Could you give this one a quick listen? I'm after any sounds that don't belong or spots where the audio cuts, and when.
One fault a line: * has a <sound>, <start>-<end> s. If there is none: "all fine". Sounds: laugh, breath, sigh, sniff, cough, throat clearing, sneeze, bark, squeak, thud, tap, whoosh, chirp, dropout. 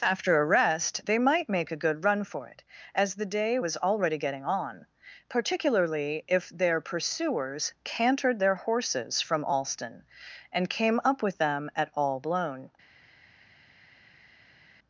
all fine